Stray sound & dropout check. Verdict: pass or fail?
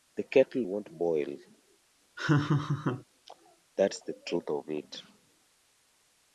fail